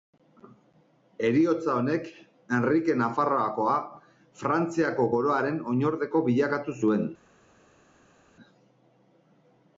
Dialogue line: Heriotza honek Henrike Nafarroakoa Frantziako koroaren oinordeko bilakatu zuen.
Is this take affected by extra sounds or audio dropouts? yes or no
no